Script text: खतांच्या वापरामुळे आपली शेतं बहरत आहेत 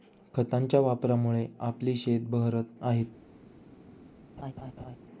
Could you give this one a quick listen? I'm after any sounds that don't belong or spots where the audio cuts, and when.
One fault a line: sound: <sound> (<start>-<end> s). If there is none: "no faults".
sound: laugh (4.4-5.0 s)